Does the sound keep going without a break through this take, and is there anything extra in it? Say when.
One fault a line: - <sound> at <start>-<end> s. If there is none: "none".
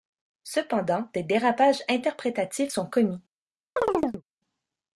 - chirp at 3.8-4.2 s